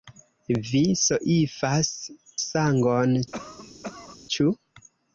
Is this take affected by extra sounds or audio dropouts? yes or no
yes